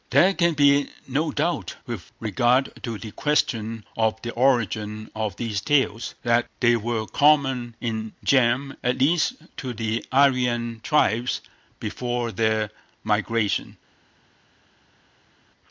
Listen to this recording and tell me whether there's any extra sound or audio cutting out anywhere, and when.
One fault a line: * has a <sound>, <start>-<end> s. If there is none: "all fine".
all fine